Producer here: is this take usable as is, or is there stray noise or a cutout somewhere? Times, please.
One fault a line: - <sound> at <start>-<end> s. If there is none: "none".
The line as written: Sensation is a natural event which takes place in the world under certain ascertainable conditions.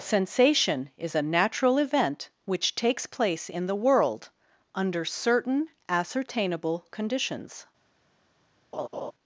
- laugh at 8.7-9.1 s